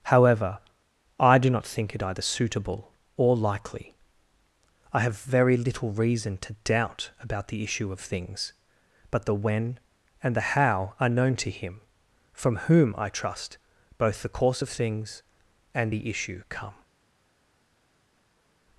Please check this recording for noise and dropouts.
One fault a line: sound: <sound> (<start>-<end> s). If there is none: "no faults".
no faults